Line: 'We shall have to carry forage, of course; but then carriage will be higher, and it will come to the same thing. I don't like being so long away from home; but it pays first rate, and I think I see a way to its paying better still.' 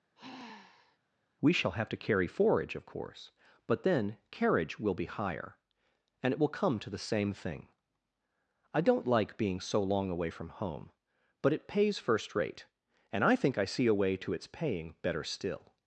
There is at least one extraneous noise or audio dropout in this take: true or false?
true